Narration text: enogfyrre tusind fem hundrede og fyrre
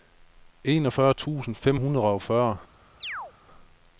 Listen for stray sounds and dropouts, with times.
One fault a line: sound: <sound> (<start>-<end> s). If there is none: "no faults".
sound: chirp (3.0-3.3 s)